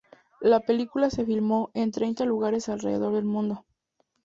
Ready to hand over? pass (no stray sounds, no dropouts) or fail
pass